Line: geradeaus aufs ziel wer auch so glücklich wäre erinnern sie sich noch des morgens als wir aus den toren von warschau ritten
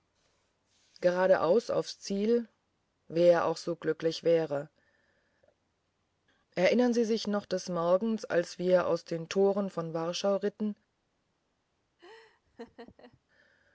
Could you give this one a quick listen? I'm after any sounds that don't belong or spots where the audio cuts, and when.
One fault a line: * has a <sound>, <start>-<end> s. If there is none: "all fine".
* has a laugh, 12.0-13.2 s